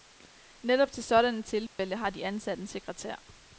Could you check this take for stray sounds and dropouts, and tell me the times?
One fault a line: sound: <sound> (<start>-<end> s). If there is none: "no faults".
sound: dropout (1.7-1.8 s)